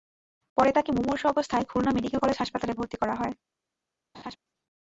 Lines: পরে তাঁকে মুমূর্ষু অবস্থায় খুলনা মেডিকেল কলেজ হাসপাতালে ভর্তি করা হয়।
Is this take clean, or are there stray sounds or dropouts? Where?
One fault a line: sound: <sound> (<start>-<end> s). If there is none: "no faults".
sound: laugh (4.1-4.4 s)